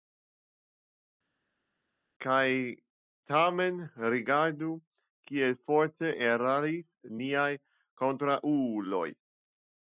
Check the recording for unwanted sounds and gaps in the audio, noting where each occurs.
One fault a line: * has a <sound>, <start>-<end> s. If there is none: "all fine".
all fine